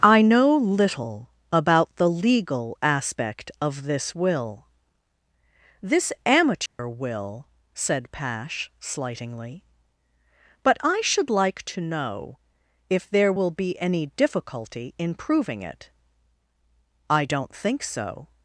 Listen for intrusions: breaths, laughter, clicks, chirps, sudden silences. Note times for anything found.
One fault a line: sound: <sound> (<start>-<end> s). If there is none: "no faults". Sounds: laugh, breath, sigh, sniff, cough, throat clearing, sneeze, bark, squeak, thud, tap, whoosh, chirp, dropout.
sound: dropout (6.7-6.8 s)